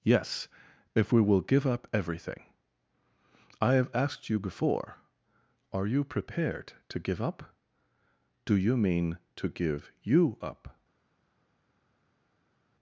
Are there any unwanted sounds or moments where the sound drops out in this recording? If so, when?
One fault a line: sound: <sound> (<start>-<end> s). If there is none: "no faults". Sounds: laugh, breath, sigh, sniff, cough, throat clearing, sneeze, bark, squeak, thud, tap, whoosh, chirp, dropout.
no faults